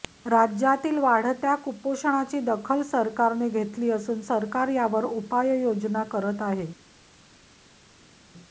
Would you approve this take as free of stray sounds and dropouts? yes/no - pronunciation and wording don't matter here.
yes